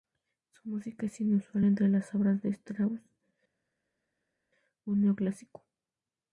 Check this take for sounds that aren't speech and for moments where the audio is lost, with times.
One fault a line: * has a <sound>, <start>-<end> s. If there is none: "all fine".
all fine